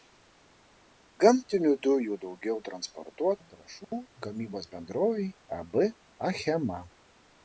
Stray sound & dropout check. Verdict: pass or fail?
pass